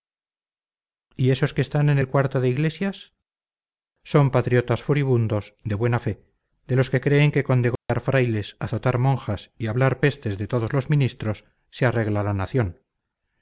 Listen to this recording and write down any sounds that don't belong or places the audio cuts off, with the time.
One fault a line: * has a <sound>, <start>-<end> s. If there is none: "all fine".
* has a dropout, 7.8-7.9 s